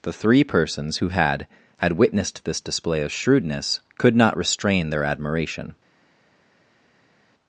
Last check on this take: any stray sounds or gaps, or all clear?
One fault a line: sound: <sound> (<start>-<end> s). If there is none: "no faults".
no faults